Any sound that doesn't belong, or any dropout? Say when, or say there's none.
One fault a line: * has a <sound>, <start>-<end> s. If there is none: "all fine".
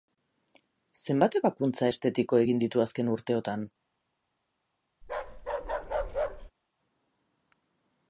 * has a bark, 5.0-6.5 s